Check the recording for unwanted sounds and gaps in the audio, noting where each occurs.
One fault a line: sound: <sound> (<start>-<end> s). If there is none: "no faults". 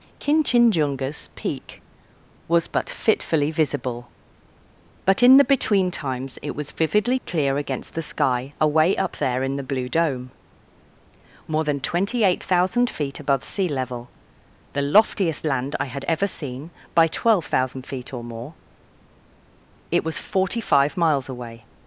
no faults